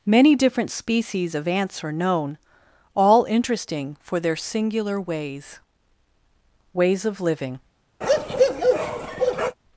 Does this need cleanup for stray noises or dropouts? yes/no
yes